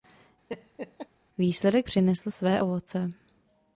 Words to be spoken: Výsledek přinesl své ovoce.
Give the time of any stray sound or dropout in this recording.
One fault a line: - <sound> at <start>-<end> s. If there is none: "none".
- laugh at 0.5-1.1 s